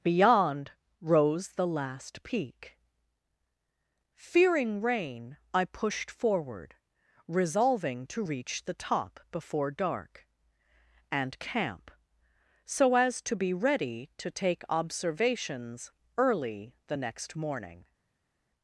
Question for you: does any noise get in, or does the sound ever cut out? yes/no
no